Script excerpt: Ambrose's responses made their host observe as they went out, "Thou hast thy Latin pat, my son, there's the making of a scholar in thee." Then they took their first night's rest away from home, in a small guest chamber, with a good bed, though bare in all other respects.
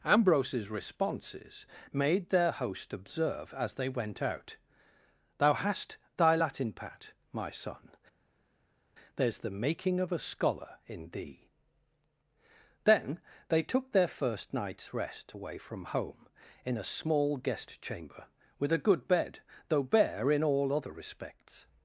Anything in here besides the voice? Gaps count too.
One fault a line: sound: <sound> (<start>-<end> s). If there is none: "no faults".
no faults